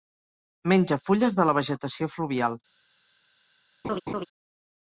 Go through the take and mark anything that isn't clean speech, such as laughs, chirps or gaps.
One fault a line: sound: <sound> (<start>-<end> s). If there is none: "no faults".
sound: laugh (3.8-4.3 s)